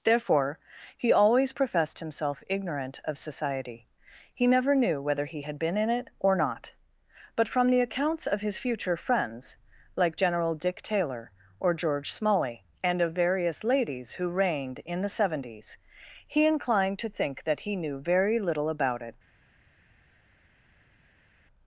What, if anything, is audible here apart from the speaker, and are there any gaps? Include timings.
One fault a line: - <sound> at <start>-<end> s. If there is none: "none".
none